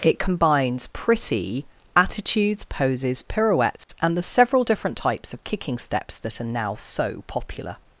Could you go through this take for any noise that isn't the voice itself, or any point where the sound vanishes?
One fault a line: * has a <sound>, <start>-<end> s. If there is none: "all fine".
* has a dropout, 3.8-3.9 s